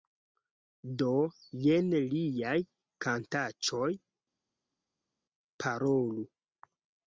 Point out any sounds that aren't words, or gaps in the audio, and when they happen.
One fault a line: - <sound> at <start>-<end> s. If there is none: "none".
none